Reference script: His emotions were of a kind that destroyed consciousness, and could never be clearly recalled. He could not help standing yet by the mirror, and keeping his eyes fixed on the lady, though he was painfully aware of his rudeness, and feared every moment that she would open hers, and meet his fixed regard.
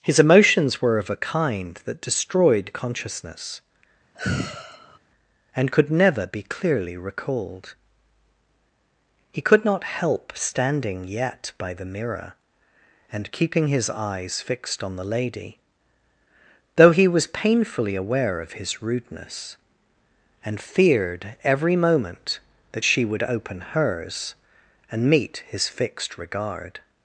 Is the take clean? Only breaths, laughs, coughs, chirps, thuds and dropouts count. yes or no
no